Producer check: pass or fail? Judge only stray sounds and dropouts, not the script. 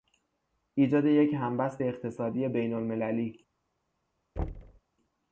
fail